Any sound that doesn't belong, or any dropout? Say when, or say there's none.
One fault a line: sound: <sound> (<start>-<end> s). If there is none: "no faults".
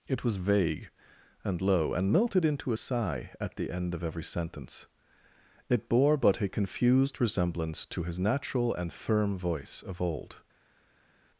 no faults